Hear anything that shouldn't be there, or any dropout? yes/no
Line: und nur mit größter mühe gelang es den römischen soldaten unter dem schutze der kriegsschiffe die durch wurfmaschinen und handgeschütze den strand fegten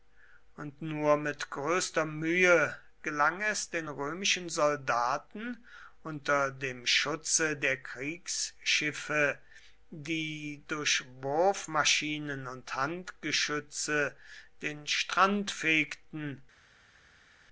no